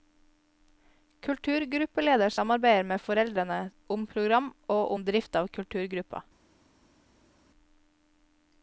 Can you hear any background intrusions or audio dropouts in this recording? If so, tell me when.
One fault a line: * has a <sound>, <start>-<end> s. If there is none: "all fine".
all fine